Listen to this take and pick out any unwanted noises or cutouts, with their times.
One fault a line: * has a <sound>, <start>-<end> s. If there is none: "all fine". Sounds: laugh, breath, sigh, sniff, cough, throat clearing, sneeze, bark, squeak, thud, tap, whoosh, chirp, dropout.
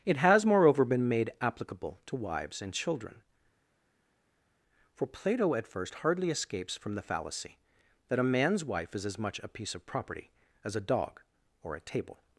all fine